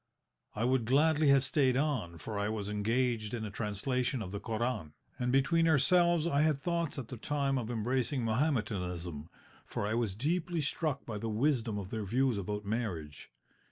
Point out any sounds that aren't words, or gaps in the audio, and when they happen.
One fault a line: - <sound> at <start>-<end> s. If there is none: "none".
none